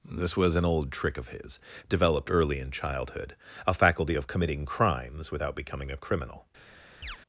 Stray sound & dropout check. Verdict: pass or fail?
fail